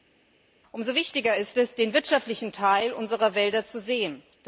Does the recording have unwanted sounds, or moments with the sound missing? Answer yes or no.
no